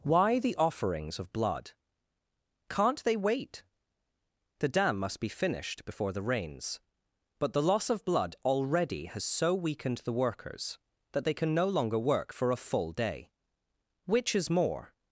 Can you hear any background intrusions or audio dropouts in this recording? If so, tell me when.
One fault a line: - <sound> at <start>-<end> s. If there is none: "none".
none